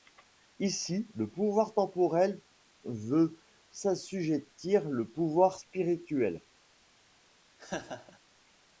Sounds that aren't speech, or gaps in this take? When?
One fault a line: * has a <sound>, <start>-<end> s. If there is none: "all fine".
* has a laugh, 7.6-8.2 s